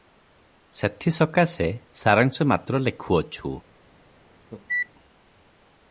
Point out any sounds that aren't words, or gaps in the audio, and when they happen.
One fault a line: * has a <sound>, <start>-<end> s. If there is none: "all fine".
* has a cough, 4.5-4.9 s